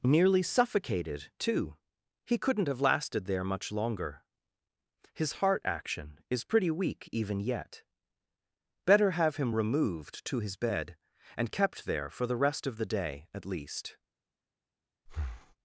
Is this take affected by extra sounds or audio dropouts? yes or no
yes